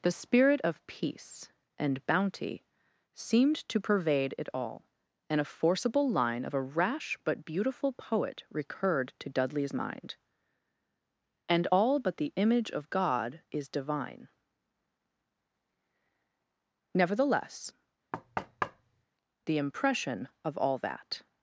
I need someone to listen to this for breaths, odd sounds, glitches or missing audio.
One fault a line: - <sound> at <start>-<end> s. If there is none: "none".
- thud at 18.1-19.0 s